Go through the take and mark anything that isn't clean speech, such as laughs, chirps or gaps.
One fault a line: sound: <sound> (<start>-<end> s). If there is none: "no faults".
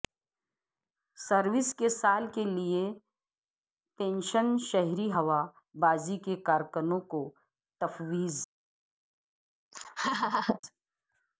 sound: laugh (9.7-10.6 s)